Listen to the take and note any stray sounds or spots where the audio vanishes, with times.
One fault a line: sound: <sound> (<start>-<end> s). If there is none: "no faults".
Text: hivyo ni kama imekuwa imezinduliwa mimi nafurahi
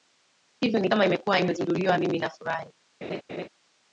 sound: laugh (3.0-3.5 s)